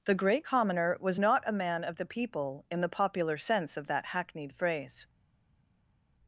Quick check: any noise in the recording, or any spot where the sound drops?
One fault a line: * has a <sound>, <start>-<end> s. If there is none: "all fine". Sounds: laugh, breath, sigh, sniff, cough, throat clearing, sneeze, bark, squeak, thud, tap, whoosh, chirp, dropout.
all fine